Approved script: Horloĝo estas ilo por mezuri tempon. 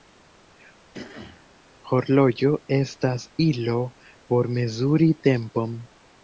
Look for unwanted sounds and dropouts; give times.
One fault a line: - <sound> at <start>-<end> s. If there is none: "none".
- throat clearing at 0.9-1.5 s